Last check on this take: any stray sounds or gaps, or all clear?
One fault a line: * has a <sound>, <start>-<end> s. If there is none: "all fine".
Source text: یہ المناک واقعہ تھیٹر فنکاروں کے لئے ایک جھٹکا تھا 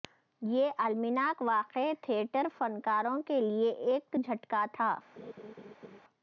* has a laugh, 5.2-6.0 s